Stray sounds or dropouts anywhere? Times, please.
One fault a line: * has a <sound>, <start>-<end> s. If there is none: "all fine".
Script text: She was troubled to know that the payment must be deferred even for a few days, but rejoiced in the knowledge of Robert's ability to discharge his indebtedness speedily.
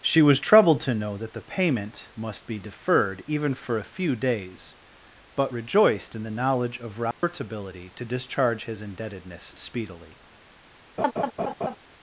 * has a dropout, 7.1-7.2 s
* has a laugh, 11.0-11.8 s